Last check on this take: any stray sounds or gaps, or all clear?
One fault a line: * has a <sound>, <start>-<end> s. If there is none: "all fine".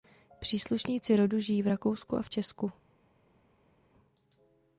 all fine